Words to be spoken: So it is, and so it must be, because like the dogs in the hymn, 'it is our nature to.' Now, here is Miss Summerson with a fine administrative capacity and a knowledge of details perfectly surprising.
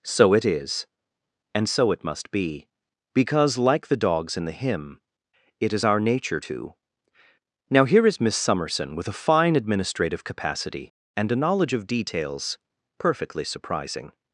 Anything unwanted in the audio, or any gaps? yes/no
no